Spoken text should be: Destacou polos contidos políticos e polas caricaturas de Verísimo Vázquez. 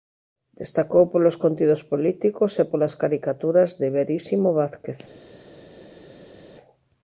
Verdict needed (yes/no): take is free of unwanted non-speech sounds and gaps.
yes